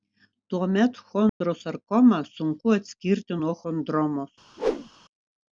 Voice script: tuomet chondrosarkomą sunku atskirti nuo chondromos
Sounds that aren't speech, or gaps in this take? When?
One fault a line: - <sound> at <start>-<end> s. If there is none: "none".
- dropout at 1.3-1.4 s
- whoosh at 4.6-4.9 s